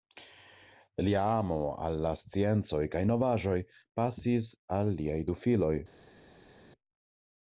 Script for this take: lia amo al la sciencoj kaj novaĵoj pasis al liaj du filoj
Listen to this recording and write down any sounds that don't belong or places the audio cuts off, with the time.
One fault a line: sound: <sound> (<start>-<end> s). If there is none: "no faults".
no faults